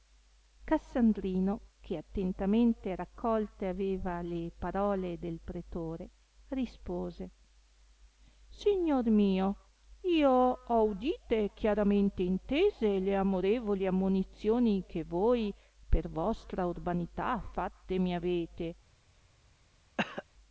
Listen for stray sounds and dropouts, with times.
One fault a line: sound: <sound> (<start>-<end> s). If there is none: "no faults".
sound: cough (20.0-20.2 s)